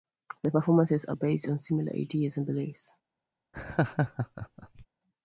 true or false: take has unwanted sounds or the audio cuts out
true